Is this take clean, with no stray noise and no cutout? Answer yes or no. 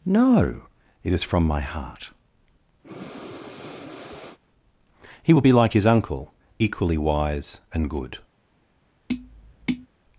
no